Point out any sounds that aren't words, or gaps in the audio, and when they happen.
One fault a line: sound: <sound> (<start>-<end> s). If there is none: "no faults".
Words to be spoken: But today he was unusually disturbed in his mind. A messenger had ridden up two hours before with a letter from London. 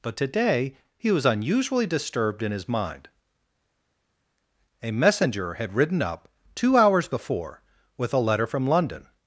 no faults